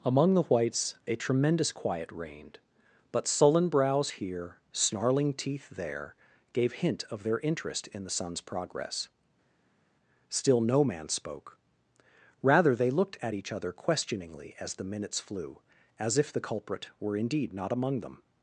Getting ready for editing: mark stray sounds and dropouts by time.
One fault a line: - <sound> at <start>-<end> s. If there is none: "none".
none